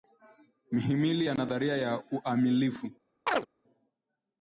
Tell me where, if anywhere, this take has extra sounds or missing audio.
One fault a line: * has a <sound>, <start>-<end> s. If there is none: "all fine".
* has a chirp, 3.3-3.5 s